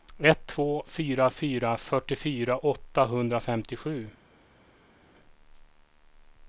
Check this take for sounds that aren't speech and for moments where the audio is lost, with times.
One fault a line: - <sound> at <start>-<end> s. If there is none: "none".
none